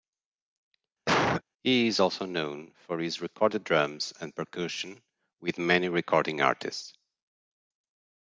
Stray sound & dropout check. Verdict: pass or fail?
fail